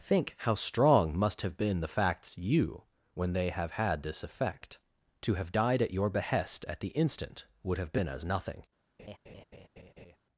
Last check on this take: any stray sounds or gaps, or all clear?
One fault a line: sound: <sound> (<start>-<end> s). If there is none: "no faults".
sound: laugh (9.0-10.2 s)